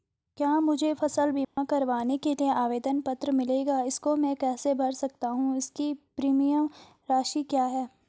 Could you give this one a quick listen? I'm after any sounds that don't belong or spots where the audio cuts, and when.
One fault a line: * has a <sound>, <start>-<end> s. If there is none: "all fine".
* has a dropout, 1.4-1.6 s